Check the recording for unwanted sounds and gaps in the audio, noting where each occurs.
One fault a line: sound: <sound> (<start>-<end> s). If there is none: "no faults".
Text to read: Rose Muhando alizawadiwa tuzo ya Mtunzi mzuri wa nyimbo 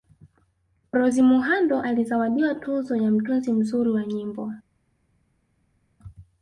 no faults